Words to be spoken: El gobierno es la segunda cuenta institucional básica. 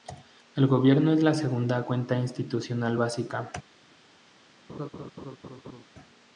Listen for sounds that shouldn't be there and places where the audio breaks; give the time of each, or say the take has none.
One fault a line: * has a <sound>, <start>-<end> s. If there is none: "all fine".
* has a laugh, 4.7-5.8 s